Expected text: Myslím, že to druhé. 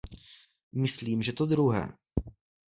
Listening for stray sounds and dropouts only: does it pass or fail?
pass